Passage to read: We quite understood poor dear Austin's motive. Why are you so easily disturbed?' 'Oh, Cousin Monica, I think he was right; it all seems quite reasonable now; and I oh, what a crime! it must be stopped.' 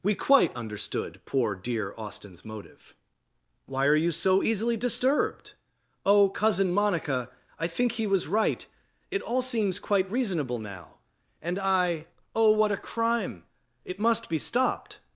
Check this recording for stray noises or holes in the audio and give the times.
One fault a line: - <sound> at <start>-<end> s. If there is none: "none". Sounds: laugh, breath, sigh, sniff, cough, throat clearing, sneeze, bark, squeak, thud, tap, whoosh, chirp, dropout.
none